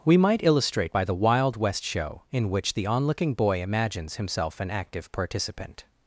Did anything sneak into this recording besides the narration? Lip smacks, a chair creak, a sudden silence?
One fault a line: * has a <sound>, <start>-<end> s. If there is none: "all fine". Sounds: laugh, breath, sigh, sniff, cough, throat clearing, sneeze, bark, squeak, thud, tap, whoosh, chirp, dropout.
all fine